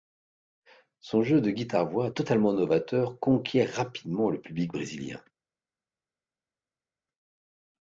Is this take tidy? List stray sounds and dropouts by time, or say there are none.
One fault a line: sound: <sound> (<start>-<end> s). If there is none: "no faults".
no faults